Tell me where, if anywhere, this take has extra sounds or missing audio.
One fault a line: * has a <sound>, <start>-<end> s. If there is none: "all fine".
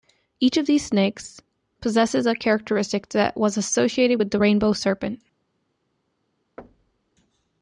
* has a thud, 6.6-7.1 s